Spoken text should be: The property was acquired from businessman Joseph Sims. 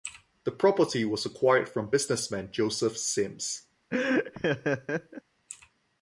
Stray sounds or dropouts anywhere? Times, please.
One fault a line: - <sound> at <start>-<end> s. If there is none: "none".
- laugh at 3.9-5.2 s